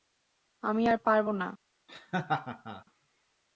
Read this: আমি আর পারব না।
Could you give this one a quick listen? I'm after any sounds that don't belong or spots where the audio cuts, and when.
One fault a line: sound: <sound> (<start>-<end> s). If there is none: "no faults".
sound: laugh (1.9-2.8 s)